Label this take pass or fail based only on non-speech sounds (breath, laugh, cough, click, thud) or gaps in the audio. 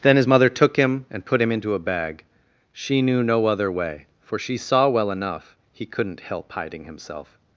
pass